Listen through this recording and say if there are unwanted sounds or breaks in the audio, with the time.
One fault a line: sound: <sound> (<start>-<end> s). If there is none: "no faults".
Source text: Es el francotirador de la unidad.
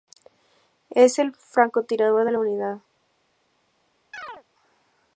sound: chirp (4.1-4.4 s)